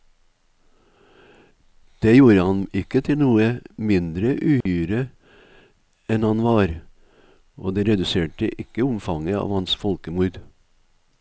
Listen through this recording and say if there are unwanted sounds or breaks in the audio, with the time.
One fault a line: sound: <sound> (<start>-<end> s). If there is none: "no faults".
sound: dropout (4.6-4.7 s)